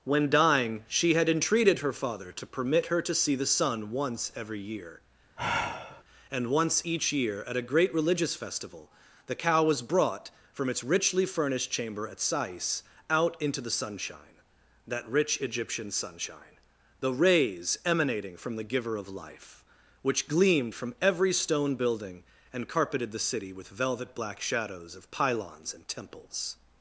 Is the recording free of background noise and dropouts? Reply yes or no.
no